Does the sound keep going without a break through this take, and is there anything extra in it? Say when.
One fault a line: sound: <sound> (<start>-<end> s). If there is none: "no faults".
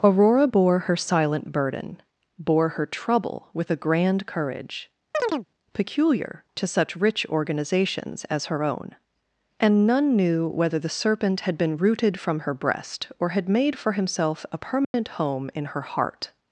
sound: chirp (5.1-5.5 s)
sound: dropout (14.8-14.9 s)